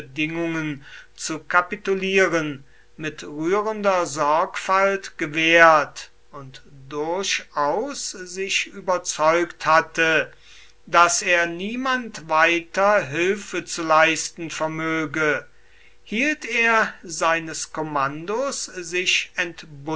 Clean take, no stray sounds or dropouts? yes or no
yes